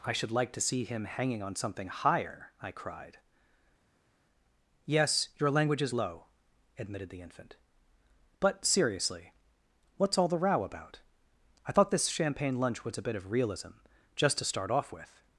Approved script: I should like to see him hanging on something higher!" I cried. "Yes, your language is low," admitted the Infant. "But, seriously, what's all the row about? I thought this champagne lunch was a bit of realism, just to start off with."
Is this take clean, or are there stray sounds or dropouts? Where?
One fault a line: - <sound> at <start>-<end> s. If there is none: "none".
none